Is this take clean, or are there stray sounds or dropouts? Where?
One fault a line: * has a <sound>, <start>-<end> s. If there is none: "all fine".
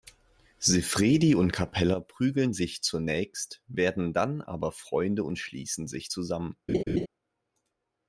* has a laugh, 6.7-7.1 s